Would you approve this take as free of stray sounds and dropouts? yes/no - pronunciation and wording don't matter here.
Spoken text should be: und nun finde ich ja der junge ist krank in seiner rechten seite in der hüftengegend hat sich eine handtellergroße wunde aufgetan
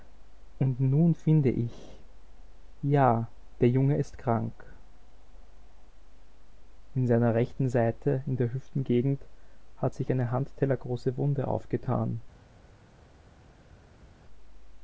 yes